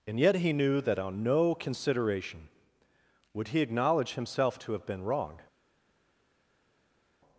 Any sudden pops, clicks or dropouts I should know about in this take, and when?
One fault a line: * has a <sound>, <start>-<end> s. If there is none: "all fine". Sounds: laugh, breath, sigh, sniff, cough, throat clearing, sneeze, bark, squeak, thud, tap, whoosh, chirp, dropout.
all fine